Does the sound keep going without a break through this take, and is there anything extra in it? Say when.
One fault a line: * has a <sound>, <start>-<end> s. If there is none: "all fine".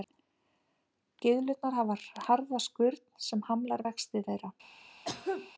* has a cough, 5.0-5.5 s